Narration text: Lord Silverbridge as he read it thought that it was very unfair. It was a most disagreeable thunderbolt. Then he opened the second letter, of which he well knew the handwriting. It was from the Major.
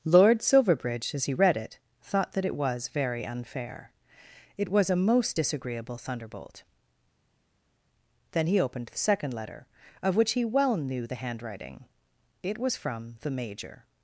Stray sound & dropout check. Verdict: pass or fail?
pass